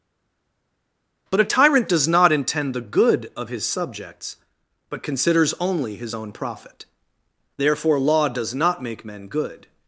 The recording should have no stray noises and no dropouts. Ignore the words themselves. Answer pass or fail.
pass